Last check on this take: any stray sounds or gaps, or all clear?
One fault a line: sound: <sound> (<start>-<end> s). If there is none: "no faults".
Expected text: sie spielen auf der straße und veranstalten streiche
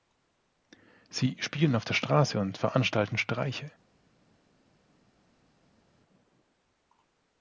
no faults